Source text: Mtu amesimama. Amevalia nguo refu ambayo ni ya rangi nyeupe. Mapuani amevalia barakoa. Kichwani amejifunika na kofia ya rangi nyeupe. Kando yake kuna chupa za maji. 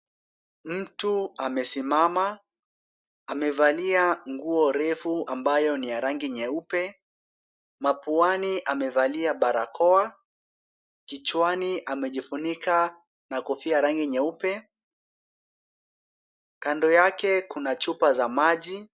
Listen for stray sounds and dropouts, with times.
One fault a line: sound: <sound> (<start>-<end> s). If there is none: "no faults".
no faults